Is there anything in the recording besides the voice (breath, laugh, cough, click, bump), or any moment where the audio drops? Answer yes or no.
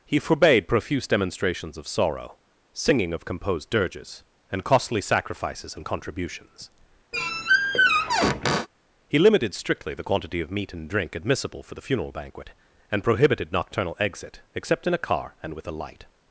yes